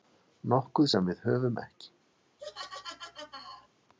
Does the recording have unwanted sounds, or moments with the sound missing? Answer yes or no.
yes